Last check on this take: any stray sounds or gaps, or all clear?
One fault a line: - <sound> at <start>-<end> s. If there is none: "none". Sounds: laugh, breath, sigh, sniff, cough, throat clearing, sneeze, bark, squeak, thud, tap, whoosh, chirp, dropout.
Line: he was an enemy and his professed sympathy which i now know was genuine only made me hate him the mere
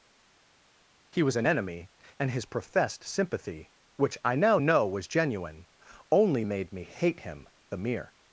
none